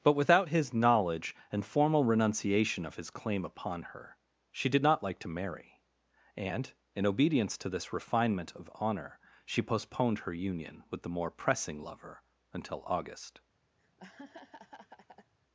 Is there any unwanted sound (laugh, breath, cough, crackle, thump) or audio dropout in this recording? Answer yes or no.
yes